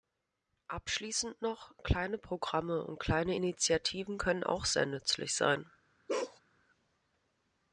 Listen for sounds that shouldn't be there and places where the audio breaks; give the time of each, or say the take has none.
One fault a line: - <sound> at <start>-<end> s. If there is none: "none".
- bark at 6.1-6.4 s